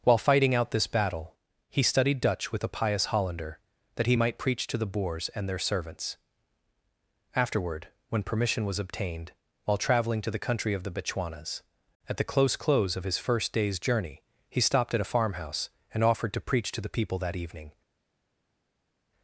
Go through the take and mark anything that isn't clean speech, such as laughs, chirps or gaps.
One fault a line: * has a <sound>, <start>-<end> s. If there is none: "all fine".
all fine